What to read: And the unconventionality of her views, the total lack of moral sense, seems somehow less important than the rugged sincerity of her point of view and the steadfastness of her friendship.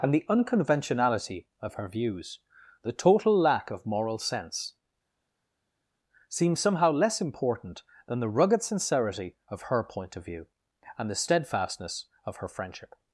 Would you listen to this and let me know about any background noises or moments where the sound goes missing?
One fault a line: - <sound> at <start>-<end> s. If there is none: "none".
none